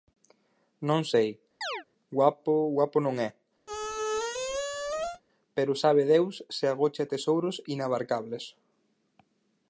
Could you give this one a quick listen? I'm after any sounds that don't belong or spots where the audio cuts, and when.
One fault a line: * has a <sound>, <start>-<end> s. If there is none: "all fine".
* has a chirp, 1.6-1.8 s
* has a squeak, 3.7-5.2 s